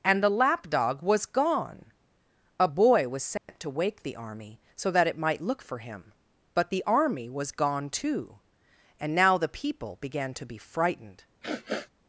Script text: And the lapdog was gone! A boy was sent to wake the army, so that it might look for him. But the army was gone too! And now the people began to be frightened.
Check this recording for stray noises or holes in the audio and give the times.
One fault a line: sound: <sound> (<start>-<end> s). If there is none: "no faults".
sound: dropout (3.4-3.5 s)
sound: sniff (11.4-11.9 s)